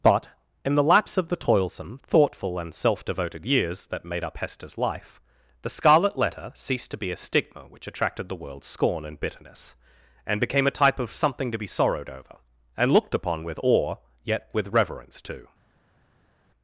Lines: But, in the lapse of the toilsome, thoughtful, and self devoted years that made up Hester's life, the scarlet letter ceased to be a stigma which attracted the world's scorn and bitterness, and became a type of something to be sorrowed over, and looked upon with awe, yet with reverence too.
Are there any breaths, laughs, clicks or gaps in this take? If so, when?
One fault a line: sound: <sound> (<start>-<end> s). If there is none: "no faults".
no faults